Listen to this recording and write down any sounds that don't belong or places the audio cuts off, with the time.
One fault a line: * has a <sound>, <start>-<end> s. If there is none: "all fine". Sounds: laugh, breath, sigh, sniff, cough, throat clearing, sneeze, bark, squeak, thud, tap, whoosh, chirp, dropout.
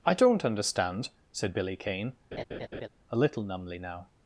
* has a laugh, 2.3-2.9 s